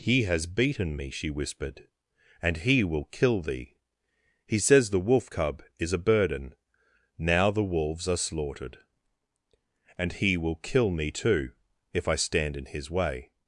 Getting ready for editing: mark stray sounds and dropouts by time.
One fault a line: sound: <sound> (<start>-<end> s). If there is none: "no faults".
no faults